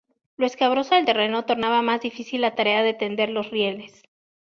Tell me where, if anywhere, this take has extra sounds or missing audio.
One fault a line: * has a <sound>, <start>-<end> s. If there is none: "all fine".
all fine